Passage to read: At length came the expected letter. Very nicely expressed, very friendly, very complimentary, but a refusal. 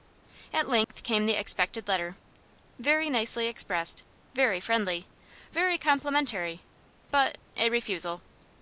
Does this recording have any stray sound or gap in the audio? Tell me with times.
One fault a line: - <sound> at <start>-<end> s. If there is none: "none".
- dropout at 0.8-0.9 s